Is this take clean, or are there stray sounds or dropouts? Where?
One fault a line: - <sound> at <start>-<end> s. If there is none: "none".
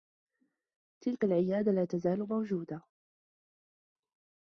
none